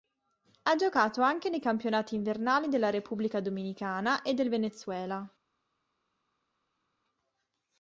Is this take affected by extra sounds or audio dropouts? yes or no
no